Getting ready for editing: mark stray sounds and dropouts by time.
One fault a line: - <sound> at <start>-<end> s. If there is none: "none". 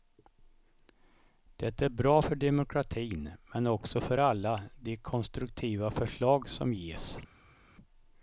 none